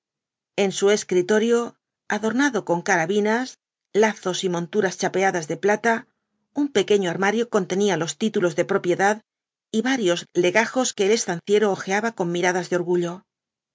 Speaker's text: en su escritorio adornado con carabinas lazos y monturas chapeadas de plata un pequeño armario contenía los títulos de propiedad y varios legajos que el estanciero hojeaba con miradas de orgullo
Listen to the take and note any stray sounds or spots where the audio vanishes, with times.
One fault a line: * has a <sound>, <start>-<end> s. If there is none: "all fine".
all fine